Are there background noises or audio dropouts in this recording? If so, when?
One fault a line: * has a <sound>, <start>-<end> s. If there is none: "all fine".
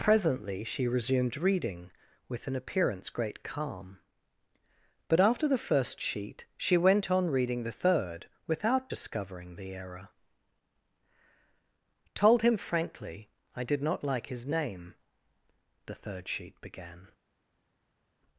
all fine